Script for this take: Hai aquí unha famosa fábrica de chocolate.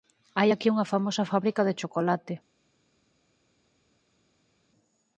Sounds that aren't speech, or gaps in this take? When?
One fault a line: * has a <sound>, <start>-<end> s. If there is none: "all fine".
all fine